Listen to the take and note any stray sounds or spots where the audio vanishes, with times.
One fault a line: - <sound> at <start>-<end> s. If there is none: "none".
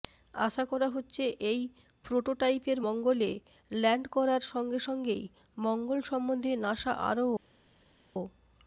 none